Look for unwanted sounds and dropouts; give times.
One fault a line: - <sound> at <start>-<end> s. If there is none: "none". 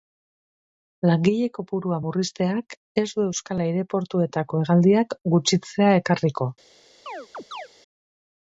- chirp at 7.1-7.7 s